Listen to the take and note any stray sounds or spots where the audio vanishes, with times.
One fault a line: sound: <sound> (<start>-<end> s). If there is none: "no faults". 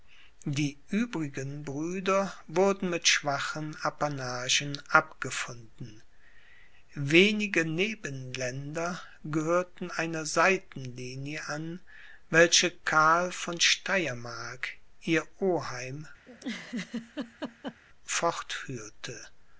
sound: laugh (16.3-17.8 s)